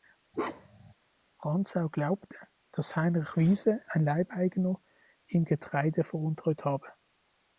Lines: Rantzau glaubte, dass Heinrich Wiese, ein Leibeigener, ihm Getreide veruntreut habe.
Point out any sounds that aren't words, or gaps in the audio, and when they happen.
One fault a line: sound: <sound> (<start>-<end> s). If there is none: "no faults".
sound: bark (0.3-0.9 s)